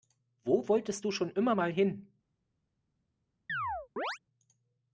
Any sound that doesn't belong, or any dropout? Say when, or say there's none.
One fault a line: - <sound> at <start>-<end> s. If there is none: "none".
- chirp at 3.5-4.2 s